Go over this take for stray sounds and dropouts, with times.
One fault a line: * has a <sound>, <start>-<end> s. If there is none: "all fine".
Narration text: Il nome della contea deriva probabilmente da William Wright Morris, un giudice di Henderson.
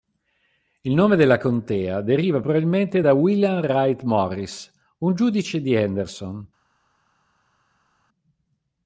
all fine